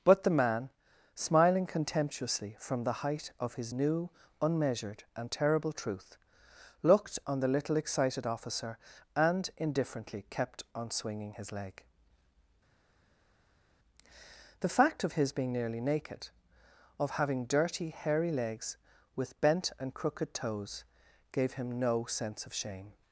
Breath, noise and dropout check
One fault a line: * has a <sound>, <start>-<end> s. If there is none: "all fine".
all fine